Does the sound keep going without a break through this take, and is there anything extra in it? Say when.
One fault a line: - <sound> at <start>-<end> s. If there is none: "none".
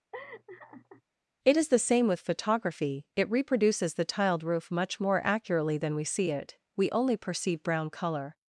- laugh at 0.1-1.0 s